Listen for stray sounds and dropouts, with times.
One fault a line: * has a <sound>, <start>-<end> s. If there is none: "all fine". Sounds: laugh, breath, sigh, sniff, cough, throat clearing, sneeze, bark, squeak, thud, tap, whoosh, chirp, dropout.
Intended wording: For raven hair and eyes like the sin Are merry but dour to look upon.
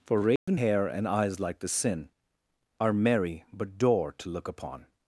* has a dropout, 0.4-0.5 s